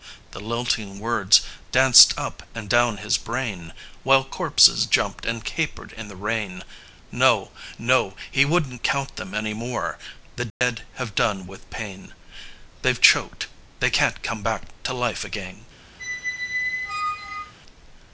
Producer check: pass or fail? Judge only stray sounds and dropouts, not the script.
fail